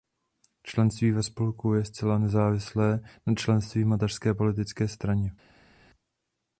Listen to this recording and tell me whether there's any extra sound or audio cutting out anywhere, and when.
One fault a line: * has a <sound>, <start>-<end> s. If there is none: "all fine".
all fine